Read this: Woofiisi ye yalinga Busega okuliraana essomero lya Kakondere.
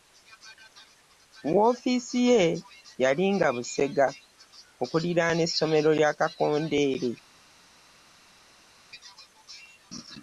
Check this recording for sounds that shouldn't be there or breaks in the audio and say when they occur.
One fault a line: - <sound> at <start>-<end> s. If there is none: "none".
none